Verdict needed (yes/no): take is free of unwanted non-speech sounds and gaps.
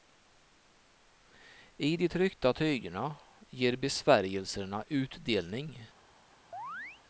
no